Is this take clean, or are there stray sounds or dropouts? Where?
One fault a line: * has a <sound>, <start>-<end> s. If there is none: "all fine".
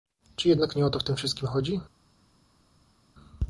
all fine